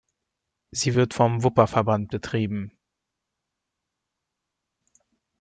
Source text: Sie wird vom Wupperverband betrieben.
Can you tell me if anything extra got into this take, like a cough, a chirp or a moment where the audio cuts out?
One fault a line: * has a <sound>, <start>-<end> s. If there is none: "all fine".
all fine